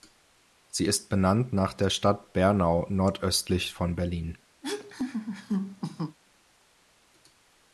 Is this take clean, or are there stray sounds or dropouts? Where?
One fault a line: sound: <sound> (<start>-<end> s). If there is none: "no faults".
sound: laugh (4.6-6.2 s)